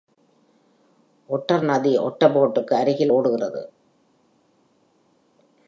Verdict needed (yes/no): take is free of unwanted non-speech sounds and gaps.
yes